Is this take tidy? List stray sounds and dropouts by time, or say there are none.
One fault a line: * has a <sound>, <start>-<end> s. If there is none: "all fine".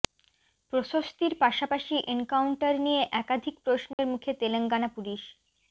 * has a dropout, 3.9-4.0 s